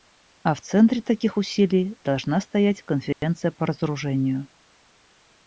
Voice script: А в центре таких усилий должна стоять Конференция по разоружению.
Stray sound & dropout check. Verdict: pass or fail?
fail